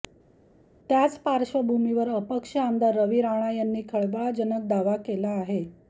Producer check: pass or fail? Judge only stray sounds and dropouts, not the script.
pass